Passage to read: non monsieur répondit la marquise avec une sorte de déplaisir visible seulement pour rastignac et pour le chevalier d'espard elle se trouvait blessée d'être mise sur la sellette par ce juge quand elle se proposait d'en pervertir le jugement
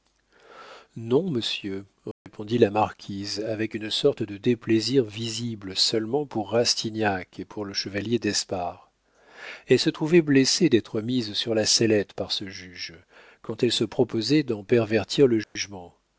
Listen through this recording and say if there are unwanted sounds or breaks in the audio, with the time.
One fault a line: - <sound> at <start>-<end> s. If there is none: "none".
- dropout at 2.1-2.3 s
- dropout at 15.4-15.6 s